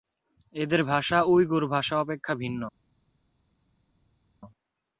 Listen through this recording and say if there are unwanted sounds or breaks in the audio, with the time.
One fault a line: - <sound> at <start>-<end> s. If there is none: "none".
none